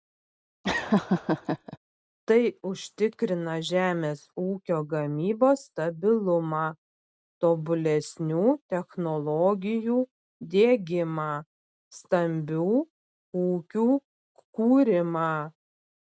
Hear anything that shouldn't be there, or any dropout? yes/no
yes